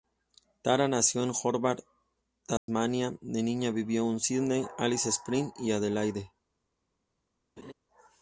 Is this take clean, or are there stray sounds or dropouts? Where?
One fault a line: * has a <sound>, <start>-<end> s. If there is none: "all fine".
* has a dropout, 2.6-2.7 s
* has a laugh, 7.6-7.7 s